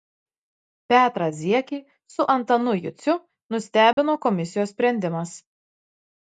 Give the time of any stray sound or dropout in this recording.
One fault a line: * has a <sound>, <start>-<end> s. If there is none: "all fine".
* has a dropout, 3.9-4.0 s